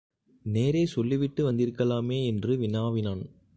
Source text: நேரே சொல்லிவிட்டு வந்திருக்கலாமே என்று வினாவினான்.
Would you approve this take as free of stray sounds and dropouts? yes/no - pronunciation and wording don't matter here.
yes